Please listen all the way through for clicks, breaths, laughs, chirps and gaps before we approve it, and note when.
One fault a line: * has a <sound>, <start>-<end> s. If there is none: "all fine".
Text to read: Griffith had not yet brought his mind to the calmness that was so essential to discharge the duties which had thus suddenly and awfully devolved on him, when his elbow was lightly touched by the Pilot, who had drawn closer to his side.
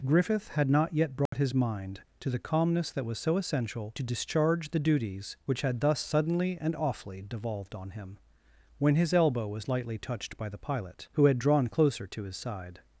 * has a dropout, 1.3-1.3 s